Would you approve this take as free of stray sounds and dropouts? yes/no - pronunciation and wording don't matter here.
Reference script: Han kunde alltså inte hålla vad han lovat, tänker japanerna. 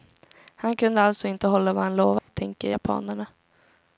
no